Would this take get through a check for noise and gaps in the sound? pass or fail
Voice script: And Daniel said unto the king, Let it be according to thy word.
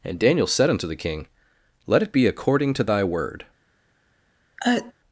fail